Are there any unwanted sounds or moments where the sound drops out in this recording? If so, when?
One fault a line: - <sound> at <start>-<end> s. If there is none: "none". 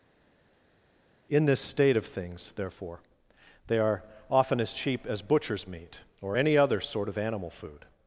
none